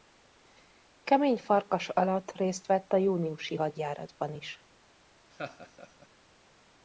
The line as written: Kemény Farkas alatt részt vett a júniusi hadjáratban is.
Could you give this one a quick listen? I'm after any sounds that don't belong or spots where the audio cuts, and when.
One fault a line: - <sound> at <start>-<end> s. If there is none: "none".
- laugh at 5.3-6.1 s